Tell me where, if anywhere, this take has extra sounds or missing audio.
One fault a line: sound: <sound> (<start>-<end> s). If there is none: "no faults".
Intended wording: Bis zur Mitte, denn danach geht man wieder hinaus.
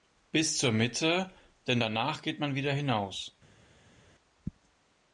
no faults